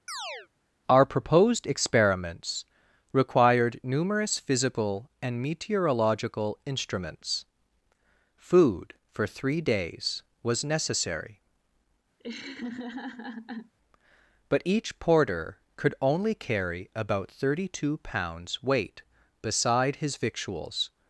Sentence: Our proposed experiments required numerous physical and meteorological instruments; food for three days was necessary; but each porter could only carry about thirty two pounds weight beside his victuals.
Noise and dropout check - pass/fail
fail